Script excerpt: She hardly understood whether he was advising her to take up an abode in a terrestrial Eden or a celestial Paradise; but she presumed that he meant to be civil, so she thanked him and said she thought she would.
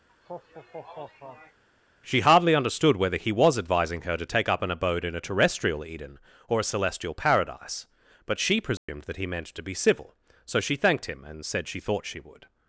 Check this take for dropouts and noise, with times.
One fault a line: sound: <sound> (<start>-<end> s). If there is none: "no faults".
sound: laugh (0.1-1.6 s)
sound: dropout (8.8-8.9 s)